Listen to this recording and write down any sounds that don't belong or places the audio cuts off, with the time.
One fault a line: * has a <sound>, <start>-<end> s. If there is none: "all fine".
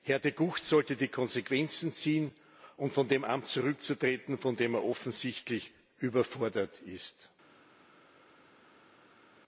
all fine